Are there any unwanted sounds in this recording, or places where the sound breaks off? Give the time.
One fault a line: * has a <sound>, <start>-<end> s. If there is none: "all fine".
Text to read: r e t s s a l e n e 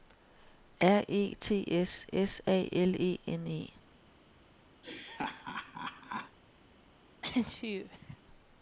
* has a laugh, 4.8-6.4 s
* has a sneeze, 7.2-8.2 s